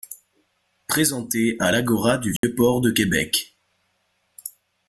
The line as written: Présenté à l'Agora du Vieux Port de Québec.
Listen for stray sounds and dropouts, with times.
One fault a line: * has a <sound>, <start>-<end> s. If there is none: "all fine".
* has a dropout, 2.4-2.4 s